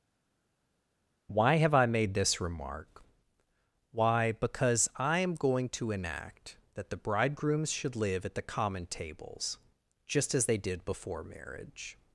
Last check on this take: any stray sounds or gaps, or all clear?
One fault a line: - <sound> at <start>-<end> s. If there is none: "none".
none